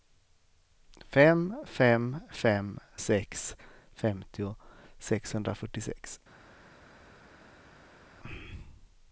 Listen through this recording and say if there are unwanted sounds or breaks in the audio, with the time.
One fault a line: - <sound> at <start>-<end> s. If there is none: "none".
none